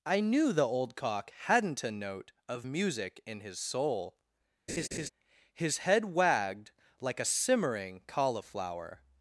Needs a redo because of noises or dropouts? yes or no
yes